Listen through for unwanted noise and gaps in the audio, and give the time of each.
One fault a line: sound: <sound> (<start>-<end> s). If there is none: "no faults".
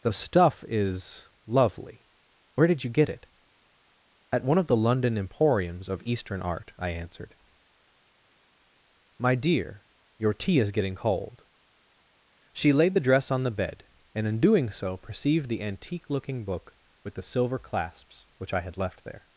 no faults